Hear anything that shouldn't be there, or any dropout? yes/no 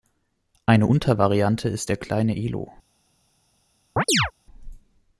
yes